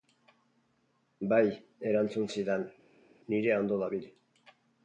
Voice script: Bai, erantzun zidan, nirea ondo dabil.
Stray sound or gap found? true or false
false